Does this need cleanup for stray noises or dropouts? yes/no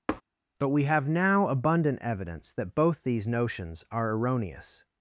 yes